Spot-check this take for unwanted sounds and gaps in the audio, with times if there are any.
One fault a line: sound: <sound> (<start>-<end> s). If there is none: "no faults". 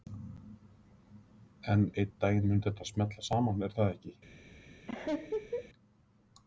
sound: laugh (4.9-5.7 s)